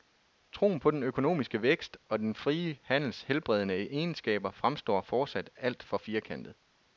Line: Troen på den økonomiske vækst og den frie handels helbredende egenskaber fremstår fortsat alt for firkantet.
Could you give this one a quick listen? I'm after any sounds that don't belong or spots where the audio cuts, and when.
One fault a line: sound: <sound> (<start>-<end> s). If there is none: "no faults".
no faults